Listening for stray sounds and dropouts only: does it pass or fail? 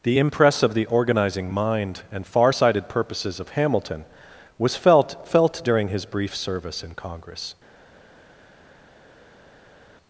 pass